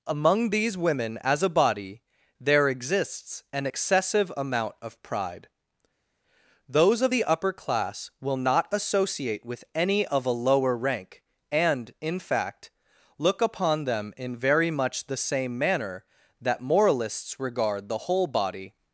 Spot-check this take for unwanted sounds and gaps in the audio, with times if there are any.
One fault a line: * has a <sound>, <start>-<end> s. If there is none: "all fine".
all fine